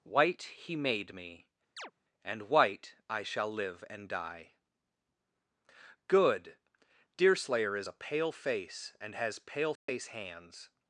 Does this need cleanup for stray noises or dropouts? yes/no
yes